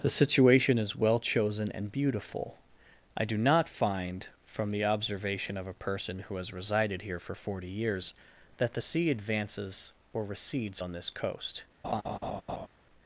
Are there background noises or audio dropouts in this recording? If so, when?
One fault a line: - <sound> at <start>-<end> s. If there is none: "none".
- laugh at 11.8-12.7 s